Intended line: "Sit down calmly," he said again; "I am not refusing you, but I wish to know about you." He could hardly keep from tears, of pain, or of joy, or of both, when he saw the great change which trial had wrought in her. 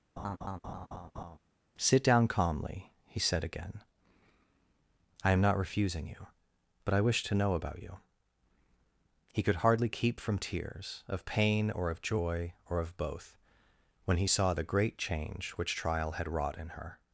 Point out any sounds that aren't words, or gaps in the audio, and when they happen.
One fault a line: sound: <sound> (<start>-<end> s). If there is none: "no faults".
sound: laugh (0.2-1.4 s)